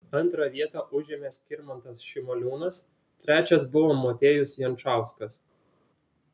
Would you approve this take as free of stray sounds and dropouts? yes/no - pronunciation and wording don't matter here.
yes